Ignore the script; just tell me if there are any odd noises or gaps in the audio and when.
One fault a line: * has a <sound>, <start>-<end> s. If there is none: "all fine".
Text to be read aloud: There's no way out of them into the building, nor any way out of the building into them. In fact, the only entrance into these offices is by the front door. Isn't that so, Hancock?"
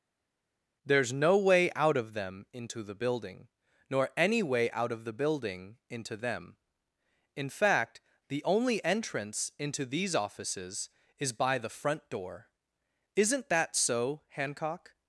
all fine